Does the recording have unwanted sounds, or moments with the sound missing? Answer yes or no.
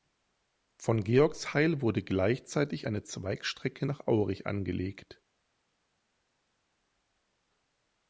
no